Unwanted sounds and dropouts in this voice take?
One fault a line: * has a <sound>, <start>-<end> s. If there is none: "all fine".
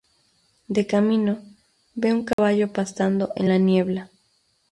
* has a dropout, 2.3-2.4 s